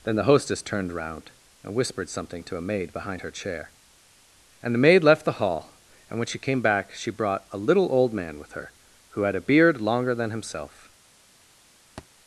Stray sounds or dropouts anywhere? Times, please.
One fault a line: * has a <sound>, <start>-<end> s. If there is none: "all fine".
* has a thud, 12.0-12.1 s